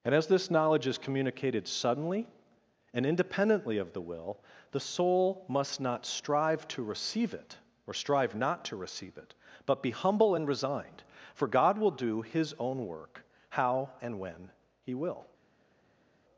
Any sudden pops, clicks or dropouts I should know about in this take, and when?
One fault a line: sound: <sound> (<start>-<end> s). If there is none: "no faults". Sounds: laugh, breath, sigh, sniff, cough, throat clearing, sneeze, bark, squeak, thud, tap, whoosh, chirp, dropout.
no faults